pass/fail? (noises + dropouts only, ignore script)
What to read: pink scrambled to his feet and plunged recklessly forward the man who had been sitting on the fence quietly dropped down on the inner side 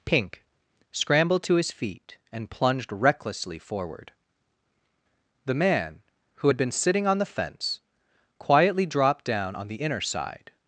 pass